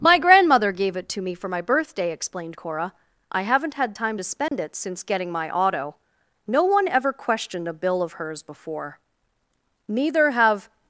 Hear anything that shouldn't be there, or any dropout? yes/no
yes